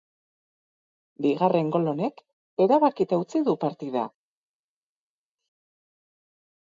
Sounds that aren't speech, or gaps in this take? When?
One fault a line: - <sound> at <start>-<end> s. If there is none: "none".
none